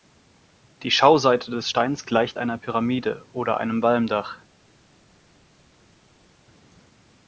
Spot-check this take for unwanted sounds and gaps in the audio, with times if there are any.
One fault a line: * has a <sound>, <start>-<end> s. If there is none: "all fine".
all fine